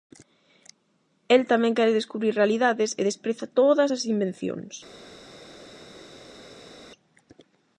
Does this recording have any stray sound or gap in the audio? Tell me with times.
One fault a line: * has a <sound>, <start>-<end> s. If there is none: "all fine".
all fine